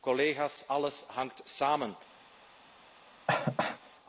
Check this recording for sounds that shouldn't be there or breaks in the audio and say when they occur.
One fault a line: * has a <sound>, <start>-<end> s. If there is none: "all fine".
* has a cough, 3.3-3.8 s